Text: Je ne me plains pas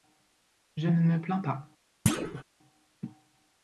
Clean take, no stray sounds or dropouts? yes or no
no